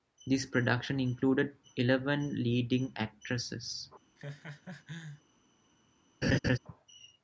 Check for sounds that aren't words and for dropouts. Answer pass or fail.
fail